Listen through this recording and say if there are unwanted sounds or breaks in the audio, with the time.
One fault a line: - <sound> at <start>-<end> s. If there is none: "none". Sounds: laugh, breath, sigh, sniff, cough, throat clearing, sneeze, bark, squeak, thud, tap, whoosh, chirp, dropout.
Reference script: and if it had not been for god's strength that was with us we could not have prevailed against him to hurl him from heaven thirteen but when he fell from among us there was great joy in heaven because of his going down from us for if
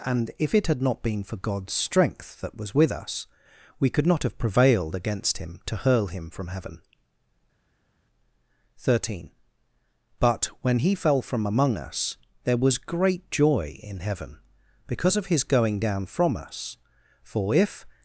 none